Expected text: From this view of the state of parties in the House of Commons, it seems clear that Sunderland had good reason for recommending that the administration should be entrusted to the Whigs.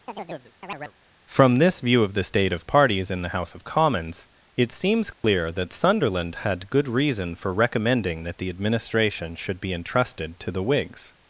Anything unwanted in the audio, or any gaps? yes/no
yes